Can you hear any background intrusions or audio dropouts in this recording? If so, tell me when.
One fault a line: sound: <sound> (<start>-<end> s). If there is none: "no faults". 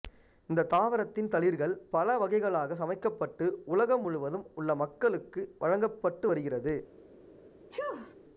sound: sneeze (7.7-8.2 s)